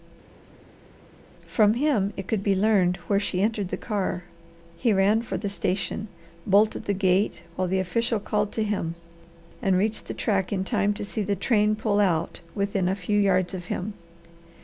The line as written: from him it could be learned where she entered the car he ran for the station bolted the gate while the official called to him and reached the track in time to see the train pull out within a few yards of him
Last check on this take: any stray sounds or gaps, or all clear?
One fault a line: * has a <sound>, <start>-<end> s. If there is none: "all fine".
all fine